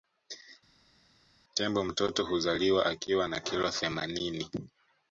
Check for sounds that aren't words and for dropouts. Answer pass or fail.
pass